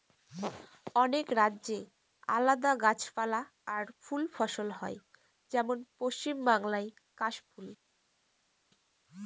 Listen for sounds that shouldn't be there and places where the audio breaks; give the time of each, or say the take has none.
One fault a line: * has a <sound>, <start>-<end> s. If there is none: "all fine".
all fine